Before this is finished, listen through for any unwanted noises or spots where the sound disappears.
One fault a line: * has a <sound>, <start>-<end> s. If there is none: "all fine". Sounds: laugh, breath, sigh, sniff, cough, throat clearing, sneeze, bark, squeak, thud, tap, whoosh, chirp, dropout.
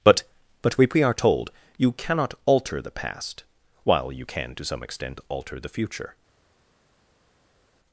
all fine